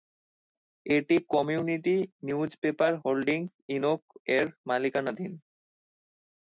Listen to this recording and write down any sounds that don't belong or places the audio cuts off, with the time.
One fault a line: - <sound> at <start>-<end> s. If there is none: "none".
none